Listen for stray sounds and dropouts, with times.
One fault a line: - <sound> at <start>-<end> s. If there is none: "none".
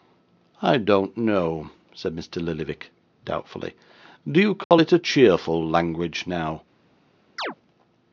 - dropout at 4.6-4.7 s
- chirp at 7.4-7.6 s